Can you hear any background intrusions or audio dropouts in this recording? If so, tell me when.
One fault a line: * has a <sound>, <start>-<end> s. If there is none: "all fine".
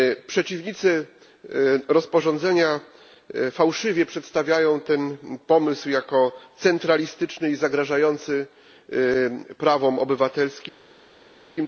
all fine